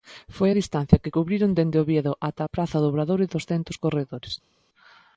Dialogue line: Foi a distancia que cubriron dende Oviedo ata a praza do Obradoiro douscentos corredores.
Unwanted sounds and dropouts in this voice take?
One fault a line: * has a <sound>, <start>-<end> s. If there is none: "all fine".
all fine